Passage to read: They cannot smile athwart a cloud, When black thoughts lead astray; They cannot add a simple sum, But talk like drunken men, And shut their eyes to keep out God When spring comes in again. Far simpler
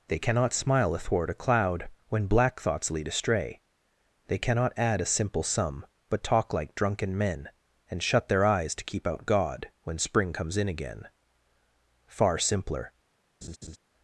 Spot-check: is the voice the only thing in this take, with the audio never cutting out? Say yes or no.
no